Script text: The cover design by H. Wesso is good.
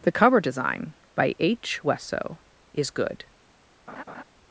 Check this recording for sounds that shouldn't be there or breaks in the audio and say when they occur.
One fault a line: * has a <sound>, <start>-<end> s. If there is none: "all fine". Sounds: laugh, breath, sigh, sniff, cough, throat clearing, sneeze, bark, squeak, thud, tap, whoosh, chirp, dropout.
* has a laugh, 3.9-4.2 s